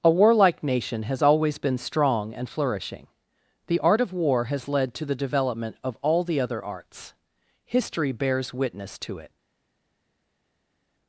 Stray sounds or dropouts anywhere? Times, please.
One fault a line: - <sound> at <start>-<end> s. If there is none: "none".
none